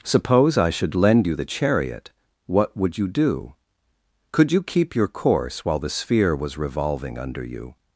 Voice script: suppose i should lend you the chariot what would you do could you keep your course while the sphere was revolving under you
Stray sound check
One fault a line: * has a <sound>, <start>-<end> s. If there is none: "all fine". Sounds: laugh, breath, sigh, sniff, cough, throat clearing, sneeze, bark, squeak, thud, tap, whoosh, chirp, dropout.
all fine